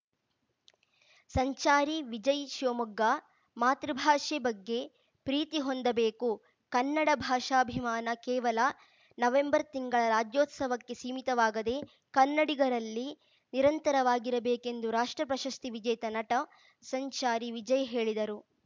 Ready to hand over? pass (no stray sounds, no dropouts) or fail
pass